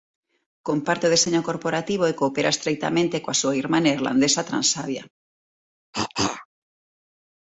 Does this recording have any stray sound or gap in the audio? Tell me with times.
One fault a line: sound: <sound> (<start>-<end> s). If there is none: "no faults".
sound: cough (5.9-6.5 s)